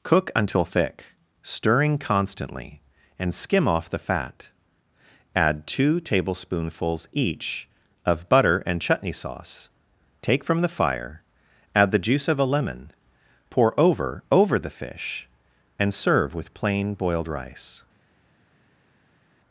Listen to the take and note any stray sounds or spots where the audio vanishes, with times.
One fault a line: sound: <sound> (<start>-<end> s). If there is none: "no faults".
no faults